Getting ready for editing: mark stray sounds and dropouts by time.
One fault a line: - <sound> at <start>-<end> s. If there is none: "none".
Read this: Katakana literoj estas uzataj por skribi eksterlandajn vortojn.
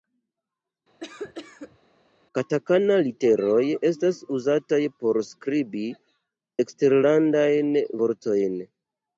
- cough at 1.0-1.8 s